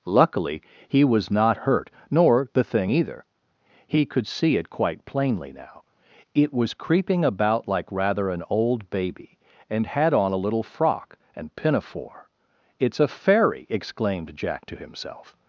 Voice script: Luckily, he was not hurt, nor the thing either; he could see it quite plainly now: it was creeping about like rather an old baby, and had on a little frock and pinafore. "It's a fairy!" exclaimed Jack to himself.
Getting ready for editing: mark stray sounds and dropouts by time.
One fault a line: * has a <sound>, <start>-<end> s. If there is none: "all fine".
all fine